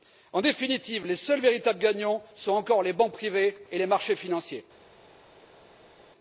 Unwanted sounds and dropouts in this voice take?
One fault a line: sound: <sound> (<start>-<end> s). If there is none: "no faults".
no faults